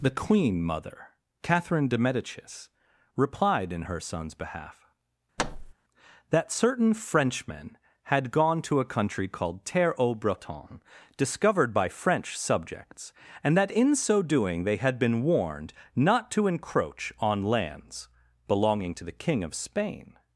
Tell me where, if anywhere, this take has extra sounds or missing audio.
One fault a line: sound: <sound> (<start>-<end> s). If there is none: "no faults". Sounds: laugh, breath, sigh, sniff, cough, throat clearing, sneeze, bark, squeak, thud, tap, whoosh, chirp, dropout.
sound: thud (5.4-5.7 s)